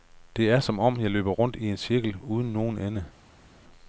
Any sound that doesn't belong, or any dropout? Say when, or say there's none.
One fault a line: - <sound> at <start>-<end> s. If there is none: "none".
none